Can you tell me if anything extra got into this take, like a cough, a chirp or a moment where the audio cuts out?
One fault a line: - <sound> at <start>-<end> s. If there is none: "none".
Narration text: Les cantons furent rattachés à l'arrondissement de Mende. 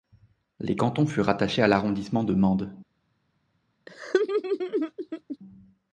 - laugh at 3.9-5.4 s